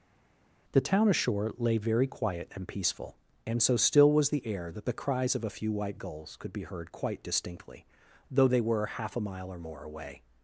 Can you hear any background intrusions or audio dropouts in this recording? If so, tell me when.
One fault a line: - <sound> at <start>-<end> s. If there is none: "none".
none